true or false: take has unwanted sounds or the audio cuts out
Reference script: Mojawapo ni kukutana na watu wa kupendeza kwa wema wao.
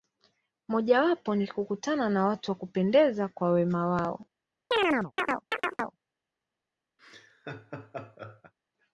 true